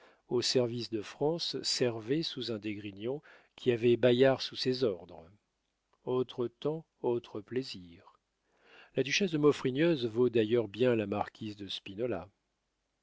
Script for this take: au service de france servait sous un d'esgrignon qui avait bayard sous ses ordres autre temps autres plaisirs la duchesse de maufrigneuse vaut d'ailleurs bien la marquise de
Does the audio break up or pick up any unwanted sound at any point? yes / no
no